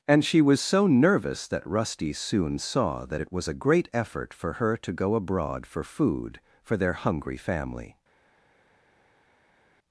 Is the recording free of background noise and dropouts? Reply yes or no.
yes